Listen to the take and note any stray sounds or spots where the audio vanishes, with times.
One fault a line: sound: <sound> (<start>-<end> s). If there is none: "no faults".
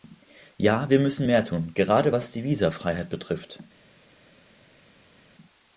no faults